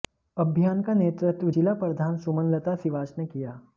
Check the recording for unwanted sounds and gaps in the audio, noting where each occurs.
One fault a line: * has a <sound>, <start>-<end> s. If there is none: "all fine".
all fine